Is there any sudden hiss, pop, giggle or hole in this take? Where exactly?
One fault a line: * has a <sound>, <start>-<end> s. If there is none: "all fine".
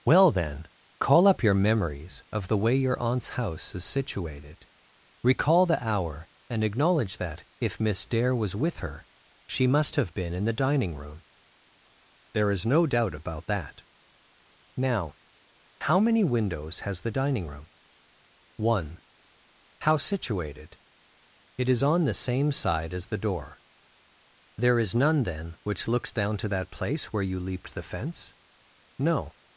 all fine